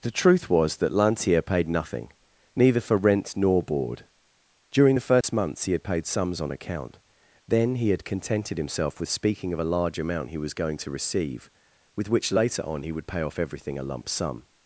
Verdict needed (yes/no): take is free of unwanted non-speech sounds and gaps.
no